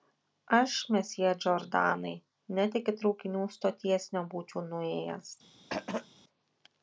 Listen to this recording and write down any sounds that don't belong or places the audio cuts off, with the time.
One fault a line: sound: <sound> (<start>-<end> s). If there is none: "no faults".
sound: throat clearing (5.7-6.1 s)